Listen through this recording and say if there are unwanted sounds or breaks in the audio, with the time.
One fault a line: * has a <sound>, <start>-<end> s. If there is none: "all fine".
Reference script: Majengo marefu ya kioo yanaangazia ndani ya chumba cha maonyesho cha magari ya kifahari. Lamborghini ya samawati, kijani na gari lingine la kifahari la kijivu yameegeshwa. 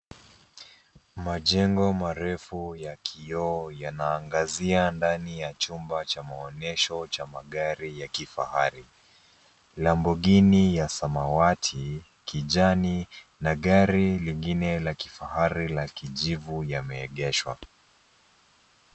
all fine